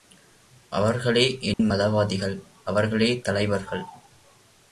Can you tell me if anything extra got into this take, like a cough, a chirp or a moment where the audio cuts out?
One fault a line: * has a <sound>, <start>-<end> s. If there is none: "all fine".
* has a dropout, 1.5-1.6 s